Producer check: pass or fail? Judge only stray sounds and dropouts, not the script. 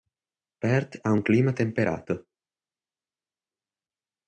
pass